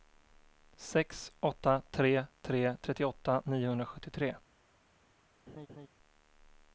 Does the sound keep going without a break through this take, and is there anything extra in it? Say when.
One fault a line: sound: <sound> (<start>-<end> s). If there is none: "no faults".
sound: laugh (5.5-5.9 s)